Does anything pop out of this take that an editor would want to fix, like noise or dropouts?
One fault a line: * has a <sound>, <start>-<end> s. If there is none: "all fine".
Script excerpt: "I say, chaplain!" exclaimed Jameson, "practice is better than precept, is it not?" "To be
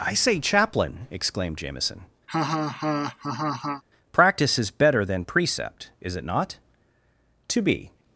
* has a laugh, 2.3-3.8 s